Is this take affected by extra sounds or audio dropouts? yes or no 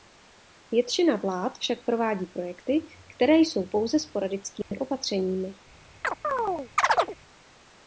yes